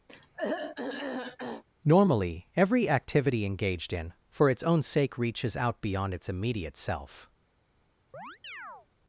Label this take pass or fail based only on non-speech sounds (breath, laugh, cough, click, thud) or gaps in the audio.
fail